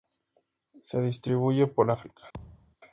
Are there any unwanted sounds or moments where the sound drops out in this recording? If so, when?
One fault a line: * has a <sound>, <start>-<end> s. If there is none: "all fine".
* has a thud, 2.3-2.8 s